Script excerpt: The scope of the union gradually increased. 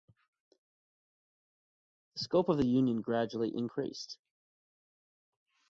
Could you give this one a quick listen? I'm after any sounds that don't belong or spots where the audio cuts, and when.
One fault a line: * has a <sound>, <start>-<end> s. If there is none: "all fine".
all fine